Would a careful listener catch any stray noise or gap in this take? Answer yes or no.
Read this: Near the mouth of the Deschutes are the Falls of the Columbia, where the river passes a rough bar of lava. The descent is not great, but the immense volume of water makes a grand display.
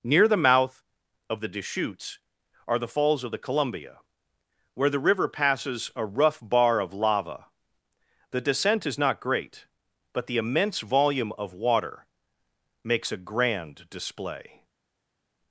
no